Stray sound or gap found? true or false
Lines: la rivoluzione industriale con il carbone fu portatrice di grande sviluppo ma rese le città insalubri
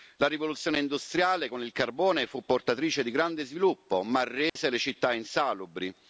true